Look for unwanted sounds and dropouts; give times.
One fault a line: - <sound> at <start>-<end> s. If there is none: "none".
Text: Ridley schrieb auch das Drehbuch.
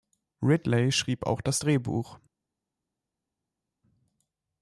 none